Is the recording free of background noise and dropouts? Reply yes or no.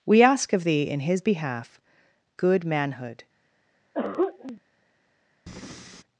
no